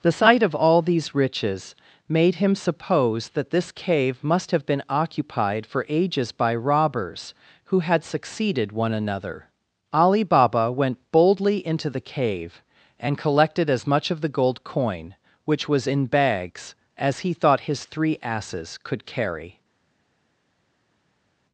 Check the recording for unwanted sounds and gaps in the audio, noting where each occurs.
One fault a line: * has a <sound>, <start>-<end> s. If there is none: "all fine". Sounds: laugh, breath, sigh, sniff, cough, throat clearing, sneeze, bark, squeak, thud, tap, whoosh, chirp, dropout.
all fine